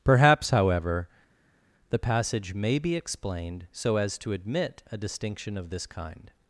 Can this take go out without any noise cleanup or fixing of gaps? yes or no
yes